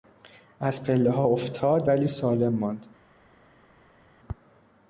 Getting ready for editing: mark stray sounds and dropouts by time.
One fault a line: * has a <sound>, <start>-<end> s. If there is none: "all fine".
all fine